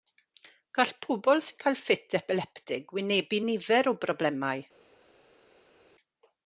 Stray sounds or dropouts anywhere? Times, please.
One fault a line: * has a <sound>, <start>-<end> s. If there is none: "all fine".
all fine